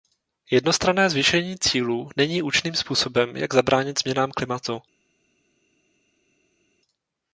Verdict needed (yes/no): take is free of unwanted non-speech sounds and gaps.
yes